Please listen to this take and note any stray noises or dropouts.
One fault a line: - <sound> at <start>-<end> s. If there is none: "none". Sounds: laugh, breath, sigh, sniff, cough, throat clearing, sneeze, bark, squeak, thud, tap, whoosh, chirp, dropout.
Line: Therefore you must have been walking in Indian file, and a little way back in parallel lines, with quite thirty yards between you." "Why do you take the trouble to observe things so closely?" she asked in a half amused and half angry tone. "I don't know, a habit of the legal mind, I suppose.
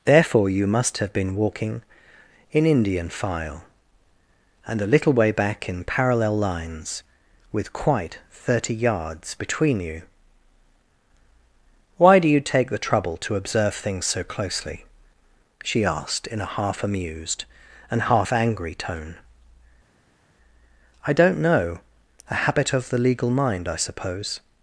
none